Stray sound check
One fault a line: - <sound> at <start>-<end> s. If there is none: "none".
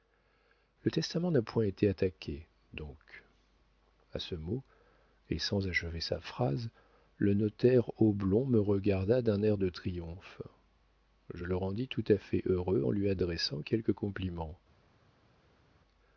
none